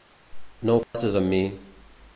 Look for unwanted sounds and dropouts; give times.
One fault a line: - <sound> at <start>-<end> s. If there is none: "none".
- dropout at 0.8-0.9 s